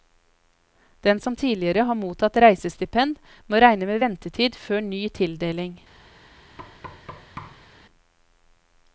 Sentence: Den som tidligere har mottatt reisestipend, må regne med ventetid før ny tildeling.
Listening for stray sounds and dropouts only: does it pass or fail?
fail